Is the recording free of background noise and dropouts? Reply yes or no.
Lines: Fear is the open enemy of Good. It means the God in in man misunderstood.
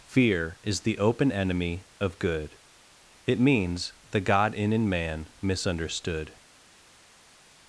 yes